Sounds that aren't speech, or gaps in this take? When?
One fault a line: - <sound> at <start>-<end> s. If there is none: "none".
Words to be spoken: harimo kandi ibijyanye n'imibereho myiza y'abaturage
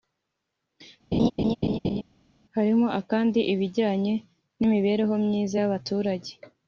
- laugh at 1.1-2.0 s